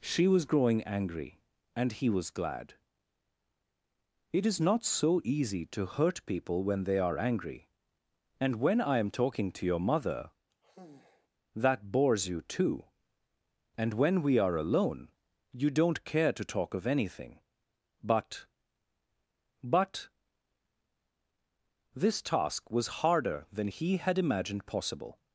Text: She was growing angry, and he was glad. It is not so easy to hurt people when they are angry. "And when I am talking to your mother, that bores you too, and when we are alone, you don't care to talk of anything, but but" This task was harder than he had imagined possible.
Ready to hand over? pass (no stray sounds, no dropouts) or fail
fail